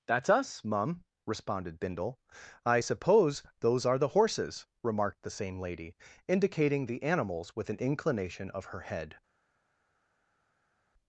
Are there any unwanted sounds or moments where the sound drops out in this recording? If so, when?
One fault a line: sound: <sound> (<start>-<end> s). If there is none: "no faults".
no faults